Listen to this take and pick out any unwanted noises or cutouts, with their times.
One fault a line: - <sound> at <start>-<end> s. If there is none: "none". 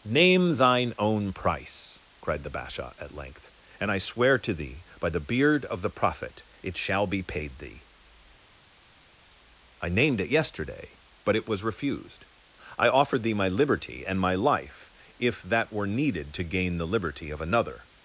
none